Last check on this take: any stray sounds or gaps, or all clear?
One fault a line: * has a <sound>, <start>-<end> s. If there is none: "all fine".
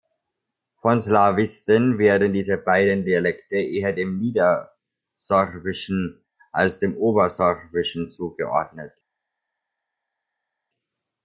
all fine